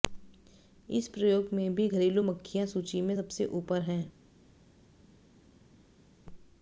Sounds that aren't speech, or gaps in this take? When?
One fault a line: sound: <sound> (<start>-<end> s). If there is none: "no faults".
no faults